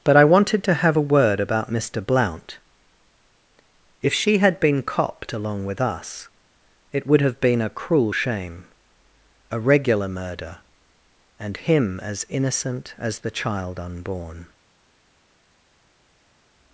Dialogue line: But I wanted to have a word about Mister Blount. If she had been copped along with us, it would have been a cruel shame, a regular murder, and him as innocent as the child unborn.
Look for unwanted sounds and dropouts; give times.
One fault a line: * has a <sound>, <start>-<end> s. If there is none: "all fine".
all fine